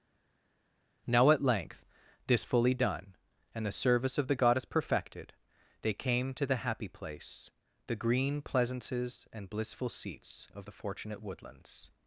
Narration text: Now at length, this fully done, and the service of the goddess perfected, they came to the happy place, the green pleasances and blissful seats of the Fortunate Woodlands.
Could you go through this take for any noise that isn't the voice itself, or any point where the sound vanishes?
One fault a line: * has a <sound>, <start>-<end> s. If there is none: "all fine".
all fine